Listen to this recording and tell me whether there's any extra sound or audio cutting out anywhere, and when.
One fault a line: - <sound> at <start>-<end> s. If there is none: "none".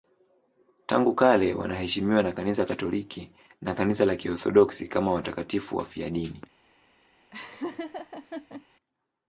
- laugh at 7.3-8.7 s